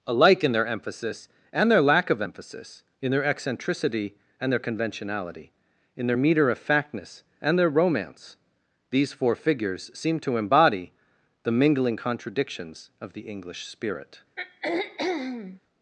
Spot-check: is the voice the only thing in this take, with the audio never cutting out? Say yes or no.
no